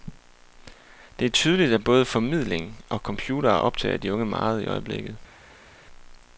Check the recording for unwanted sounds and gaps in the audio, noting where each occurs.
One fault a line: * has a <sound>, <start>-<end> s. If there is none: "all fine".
all fine